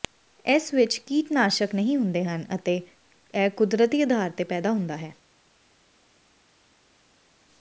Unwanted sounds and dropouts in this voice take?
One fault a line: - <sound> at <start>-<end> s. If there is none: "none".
none